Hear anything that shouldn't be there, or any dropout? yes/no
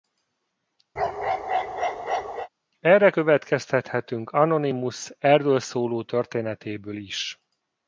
yes